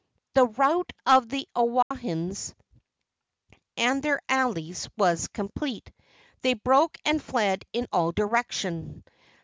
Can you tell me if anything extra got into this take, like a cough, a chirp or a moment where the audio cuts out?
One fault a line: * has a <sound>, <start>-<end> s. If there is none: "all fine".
* has a dropout, 1.8-1.9 s